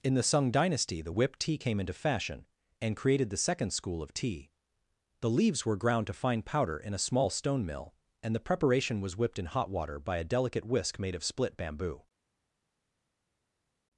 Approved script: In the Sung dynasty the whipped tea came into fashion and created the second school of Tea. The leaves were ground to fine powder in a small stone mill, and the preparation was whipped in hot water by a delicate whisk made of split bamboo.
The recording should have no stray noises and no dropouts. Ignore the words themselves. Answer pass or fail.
pass